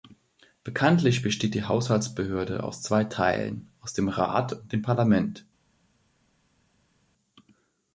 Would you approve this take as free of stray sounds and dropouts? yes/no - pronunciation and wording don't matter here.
yes